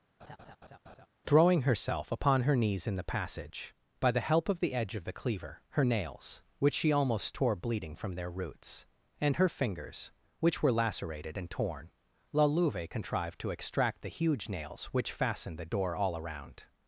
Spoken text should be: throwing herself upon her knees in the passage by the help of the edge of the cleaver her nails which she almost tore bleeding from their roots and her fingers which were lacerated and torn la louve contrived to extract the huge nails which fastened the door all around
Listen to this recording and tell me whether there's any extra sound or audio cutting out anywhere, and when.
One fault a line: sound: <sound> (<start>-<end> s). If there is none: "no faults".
sound: laugh (0.2-1.1 s)